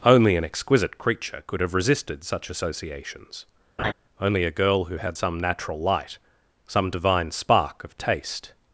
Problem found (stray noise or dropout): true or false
true